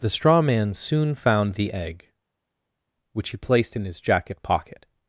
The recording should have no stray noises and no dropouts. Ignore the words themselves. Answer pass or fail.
pass